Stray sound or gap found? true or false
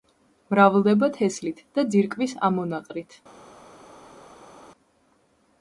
false